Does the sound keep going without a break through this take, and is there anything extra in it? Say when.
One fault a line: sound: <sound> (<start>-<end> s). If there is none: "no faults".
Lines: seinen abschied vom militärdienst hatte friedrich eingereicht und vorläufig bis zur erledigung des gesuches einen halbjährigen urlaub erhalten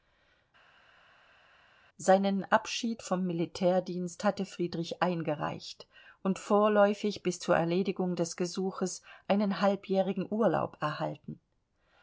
no faults